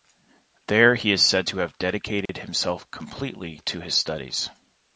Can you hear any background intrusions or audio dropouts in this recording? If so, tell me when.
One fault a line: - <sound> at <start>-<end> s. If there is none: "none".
- dropout at 2.3-2.3 s